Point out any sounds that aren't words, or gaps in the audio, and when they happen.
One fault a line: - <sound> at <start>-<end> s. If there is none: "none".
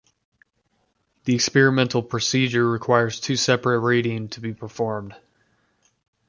none